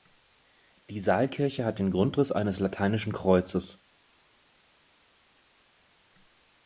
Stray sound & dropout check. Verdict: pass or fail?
pass